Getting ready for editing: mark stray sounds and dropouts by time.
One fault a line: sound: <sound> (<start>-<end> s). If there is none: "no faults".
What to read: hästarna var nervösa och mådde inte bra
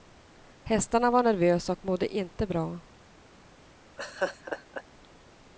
sound: laugh (4.0-4.8 s)